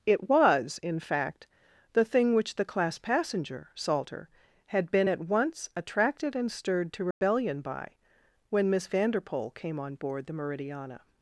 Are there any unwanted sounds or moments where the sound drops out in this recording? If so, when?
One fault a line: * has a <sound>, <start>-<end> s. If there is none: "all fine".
* has a dropout, 7.1-7.2 s